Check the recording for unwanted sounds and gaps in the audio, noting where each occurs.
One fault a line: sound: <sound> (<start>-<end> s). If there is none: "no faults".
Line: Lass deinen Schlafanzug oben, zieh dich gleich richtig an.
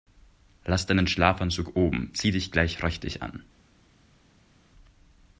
no faults